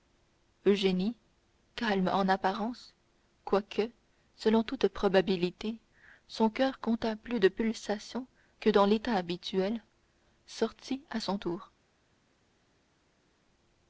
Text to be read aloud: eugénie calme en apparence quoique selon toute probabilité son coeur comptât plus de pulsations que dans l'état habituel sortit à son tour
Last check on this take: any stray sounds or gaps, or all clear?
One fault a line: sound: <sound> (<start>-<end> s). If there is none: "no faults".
no faults